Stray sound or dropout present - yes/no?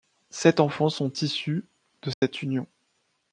yes